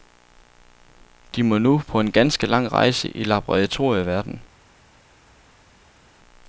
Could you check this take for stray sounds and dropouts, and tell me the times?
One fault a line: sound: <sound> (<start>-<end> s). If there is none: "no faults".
no faults